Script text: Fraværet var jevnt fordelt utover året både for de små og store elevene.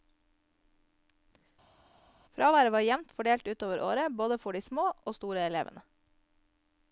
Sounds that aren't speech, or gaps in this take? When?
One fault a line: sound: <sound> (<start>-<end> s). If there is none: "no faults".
no faults